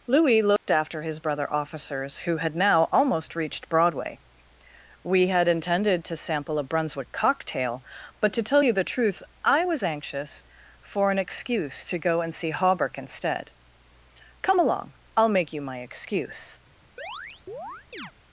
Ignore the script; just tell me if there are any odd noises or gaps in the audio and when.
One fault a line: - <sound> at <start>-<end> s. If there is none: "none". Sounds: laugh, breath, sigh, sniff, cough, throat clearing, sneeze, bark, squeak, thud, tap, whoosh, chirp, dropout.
- dropout at 0.6-0.7 s
- chirp at 17.0-18.1 s